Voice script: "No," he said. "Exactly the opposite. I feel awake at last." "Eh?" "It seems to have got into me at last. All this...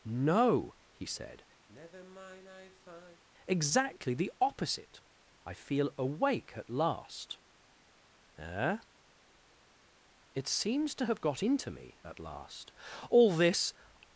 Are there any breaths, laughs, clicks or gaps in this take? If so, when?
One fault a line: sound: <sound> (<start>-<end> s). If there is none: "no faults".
sound: sigh (1.7-3.2 s)